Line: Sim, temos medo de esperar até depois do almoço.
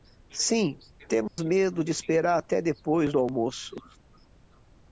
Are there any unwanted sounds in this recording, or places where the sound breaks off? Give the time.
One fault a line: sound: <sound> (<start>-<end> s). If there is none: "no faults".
sound: dropout (1.3-1.4 s)